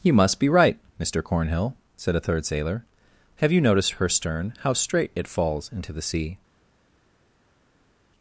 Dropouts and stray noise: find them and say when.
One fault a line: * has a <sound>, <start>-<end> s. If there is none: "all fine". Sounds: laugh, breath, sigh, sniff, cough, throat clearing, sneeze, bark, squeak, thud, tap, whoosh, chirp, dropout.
all fine